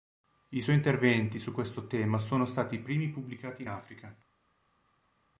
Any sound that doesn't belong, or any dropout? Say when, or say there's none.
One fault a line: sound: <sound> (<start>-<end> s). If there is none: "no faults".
no faults